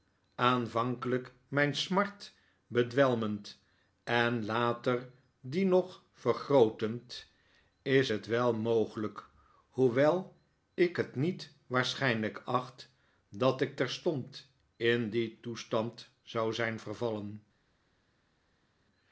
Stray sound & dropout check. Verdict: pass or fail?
pass